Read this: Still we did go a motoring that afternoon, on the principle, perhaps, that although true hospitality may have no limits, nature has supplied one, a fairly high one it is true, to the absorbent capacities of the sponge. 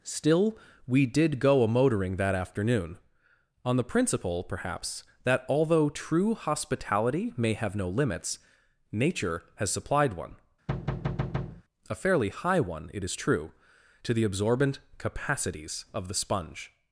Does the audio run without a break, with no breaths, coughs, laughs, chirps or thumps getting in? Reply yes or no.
no